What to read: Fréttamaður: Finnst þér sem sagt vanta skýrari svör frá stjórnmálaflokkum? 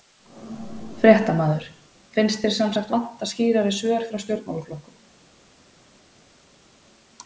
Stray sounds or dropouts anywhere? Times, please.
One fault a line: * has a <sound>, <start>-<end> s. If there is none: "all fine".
all fine